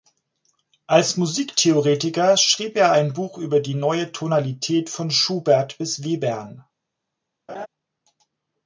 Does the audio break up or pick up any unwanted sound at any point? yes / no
yes